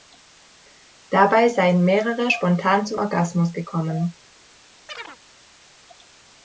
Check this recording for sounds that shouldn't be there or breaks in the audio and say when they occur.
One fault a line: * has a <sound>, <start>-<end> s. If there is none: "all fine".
* has a chirp, 4.9-5.2 s